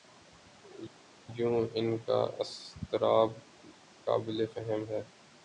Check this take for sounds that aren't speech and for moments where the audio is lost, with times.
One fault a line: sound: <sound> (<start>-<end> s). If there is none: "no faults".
no faults